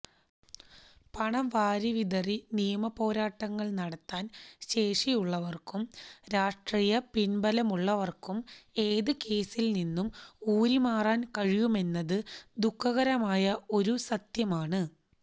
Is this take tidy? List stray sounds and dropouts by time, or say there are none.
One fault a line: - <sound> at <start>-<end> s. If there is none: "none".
none